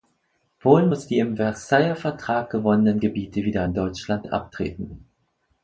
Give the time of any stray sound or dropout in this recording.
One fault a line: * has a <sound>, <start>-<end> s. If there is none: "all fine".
all fine